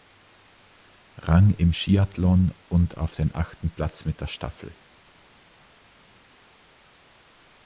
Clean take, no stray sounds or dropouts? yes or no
yes